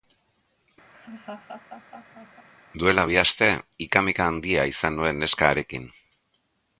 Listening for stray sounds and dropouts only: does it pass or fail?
fail